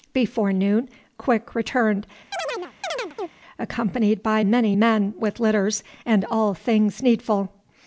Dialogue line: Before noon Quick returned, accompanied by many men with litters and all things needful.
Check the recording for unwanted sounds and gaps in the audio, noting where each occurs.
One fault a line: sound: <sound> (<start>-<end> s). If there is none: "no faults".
sound: chirp (2.3-3.3 s)